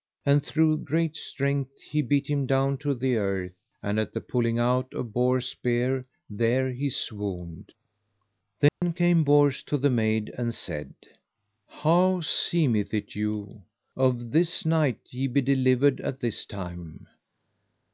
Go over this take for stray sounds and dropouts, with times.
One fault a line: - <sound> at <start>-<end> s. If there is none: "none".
- dropout at 8.7-8.8 s